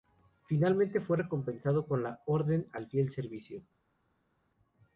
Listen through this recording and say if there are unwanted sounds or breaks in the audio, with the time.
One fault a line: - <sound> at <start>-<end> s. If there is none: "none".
none